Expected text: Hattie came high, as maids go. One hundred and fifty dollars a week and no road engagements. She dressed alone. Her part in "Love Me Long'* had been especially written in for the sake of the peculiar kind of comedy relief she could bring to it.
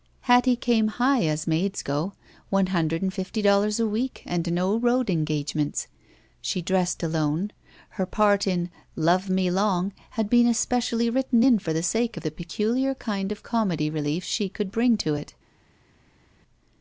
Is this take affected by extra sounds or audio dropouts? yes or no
no